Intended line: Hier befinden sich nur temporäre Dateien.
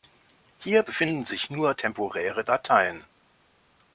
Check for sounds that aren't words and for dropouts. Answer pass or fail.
pass